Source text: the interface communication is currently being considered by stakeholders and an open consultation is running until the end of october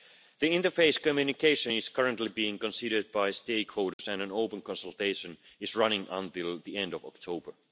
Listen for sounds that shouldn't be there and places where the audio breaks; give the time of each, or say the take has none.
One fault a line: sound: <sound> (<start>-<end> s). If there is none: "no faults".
sound: dropout (3.9-4.0 s)